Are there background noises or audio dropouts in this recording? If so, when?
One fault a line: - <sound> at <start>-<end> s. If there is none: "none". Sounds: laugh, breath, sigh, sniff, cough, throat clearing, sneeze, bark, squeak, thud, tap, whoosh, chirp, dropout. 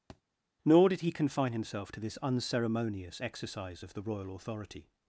- thud at 0.1-0.2 s